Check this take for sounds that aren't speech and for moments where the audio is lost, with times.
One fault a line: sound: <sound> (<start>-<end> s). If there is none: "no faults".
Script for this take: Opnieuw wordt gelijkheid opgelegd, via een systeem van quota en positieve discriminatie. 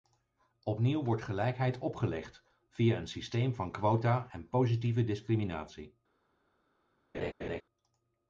sound: laugh (7.1-7.6 s)